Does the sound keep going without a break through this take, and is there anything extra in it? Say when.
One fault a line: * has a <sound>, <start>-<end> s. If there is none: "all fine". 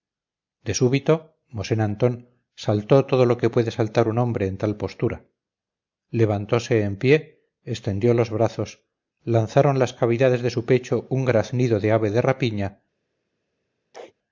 * has a sneeze, 13.9-14.1 s